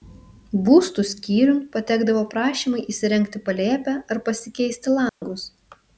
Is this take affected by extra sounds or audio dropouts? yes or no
yes